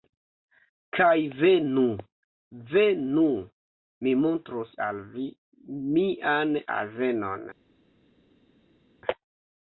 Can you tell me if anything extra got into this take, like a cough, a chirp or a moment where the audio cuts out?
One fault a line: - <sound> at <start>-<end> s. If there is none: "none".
none